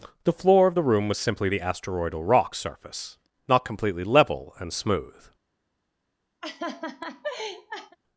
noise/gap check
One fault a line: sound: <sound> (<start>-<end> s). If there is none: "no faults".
sound: laugh (6.4-8.0 s)